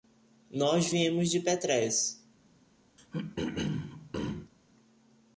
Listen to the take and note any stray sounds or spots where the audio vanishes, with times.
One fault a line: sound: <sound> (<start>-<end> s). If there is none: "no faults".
sound: throat clearing (3.0-4.5 s)